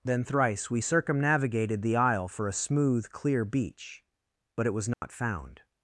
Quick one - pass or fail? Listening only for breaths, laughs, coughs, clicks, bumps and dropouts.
fail